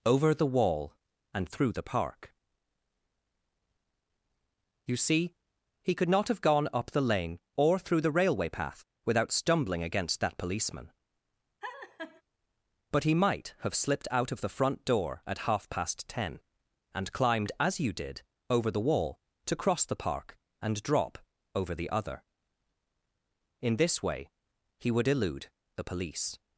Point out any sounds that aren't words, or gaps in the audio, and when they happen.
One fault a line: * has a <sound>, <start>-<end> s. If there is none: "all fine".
* has a laugh, 11.6-12.2 s